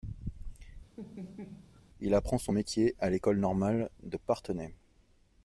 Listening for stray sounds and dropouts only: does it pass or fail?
fail